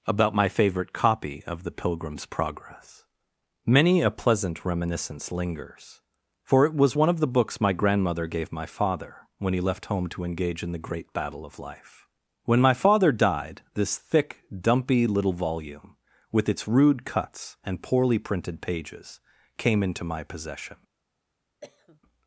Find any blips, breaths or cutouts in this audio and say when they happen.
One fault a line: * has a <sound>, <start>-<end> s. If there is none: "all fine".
* has a cough, 21.6-22.0 s